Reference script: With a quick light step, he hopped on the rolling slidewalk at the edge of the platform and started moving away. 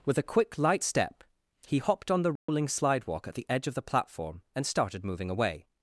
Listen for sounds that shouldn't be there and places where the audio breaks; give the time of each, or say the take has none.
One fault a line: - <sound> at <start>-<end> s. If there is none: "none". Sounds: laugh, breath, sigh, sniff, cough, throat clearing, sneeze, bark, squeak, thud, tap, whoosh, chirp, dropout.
- dropout at 2.4-2.5 s